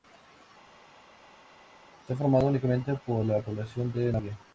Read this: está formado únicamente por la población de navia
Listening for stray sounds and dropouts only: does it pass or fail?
pass